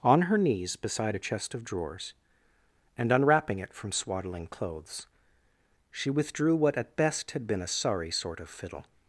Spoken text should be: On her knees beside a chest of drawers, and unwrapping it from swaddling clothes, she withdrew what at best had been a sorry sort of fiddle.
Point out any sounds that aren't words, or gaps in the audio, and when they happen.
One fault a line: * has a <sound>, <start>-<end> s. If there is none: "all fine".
all fine